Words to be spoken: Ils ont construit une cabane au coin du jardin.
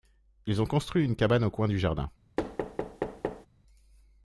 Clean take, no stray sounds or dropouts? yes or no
no